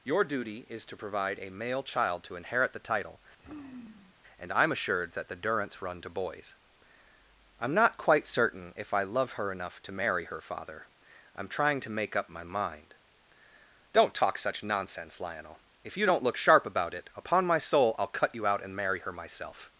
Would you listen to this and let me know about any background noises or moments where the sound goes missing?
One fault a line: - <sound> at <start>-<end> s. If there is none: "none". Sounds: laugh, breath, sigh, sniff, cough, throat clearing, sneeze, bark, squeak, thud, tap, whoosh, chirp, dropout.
- sigh at 3.4-4.2 s